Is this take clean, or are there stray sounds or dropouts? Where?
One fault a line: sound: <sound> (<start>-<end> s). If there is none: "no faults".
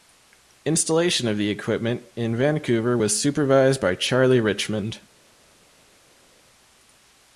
no faults